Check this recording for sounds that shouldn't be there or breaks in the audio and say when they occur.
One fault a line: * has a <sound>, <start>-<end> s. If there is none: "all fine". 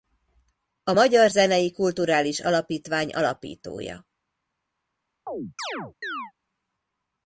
* has a chirp, 5.3-6.3 s